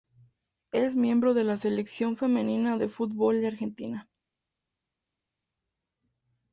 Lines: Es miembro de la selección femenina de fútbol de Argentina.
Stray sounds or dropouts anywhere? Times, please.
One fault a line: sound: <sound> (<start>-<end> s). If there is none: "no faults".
no faults